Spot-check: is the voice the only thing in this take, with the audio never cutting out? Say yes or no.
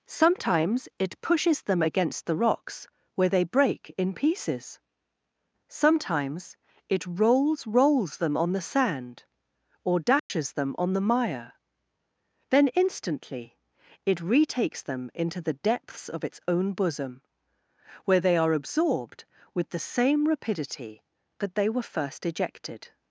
no